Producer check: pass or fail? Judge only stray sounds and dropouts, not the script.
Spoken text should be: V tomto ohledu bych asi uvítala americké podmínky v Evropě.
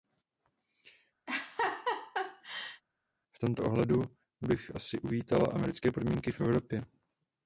fail